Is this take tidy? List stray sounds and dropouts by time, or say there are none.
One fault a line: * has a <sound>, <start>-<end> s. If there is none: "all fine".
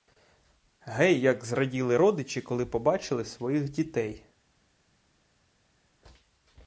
all fine